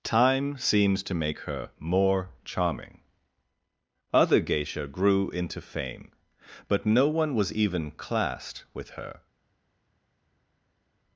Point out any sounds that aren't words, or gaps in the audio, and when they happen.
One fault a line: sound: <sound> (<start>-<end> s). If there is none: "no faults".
no faults